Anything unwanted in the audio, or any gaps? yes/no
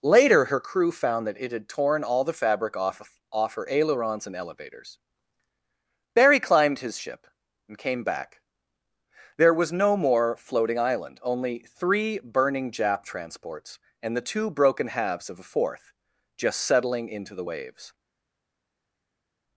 no